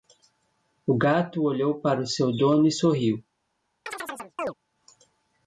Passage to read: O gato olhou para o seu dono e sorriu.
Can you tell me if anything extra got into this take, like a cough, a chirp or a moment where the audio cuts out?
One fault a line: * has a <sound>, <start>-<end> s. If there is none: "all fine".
* has a chirp, 3.9-4.5 s